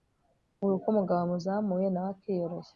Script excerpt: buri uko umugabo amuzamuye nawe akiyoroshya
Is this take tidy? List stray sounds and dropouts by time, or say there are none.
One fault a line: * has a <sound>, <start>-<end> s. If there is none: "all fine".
all fine